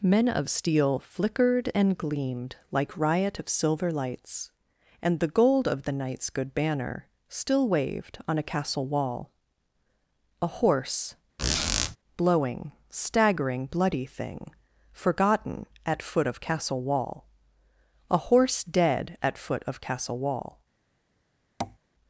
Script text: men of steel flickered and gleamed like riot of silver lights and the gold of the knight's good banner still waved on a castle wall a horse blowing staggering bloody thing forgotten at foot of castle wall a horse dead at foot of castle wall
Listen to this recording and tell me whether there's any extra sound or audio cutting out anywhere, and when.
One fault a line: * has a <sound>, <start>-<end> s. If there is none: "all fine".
* has a squeak, 11.4-12.0 s
* has a tap, 21.6-21.8 s